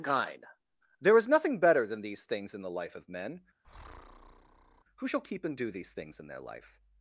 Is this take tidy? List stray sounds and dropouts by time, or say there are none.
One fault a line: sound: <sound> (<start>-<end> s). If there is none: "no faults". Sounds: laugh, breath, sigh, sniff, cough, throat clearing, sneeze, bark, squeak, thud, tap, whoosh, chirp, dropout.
sound: breath (3.6-4.8 s)